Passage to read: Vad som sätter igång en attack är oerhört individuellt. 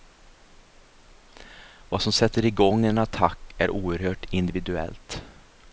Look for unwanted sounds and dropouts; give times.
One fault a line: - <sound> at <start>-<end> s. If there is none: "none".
none